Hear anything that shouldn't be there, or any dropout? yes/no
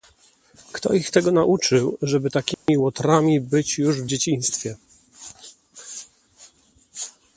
yes